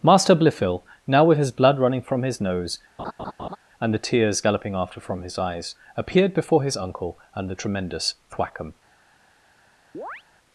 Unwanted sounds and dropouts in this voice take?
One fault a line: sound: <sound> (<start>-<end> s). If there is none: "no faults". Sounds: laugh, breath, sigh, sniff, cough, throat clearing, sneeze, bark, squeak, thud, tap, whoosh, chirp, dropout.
sound: laugh (3.0-3.6 s)
sound: chirp (9.9-10.2 s)